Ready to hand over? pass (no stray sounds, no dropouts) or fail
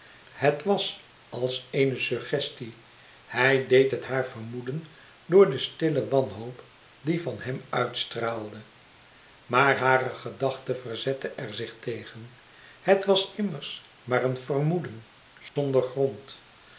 fail